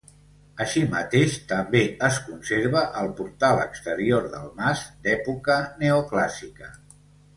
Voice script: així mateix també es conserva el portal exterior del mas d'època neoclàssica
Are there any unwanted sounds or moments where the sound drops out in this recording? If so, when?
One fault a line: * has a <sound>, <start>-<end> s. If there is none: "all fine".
all fine